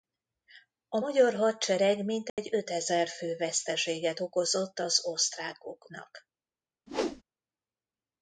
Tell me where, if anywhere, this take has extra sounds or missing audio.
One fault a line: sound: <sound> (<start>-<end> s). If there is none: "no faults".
sound: dropout (2.3-2.4 s)
sound: whoosh (6.9-7.2 s)